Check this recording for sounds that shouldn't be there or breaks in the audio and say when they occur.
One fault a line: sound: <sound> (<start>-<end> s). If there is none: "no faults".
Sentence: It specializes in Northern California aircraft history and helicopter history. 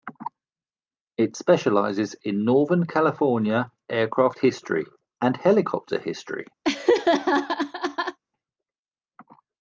sound: laugh (6.6-8.2 s)